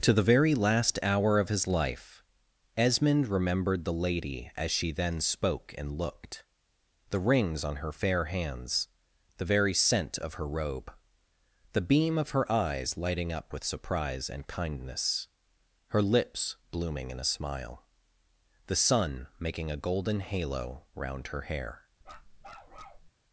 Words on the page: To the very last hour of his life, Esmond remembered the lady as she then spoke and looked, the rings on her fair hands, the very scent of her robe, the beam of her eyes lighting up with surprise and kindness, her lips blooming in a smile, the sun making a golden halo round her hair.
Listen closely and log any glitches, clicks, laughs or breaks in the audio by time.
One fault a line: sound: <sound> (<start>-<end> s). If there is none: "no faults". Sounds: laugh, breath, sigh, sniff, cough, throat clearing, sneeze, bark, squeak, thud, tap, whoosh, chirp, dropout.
sound: bark (22.0-23.1 s)